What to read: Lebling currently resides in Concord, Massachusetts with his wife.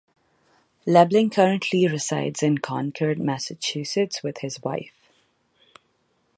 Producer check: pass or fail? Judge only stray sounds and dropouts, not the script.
pass